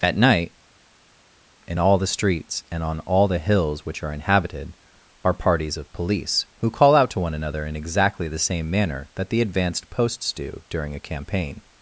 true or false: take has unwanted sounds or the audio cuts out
false